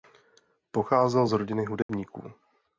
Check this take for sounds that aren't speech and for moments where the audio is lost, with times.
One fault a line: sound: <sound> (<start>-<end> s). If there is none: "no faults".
sound: dropout (1.8-1.9 s)